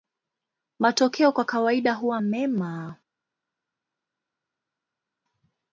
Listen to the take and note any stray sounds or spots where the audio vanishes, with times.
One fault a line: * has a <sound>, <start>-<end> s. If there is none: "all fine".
all fine